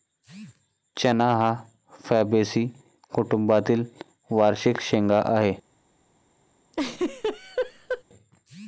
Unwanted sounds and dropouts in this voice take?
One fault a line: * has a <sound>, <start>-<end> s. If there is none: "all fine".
* has a laugh, 6.7-8.0 s